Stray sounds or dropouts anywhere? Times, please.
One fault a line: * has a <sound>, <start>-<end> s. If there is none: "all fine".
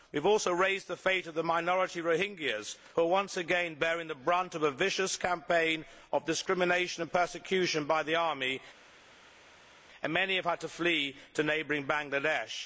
all fine